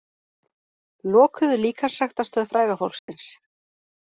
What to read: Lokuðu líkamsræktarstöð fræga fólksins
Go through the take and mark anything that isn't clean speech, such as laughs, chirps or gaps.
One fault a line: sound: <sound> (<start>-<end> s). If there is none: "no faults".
sound: dropout (3.0-3.1 s)